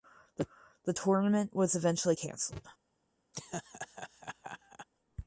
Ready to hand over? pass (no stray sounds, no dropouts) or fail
fail